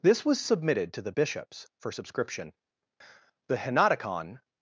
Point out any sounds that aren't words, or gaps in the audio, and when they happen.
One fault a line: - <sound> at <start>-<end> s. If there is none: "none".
none